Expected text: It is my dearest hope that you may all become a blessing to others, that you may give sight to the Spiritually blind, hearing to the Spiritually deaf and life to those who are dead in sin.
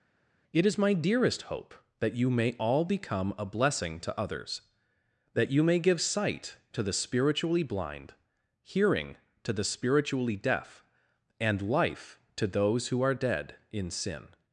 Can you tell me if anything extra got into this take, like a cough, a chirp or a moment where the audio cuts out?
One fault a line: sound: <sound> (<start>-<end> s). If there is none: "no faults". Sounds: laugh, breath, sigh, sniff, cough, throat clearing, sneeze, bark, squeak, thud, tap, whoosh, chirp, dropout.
no faults